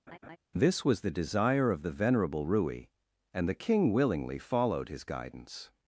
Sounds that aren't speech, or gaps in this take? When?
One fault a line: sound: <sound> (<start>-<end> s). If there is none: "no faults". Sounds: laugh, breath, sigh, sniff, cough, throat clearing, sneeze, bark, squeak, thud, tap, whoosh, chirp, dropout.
sound: laugh (0.1-0.4 s)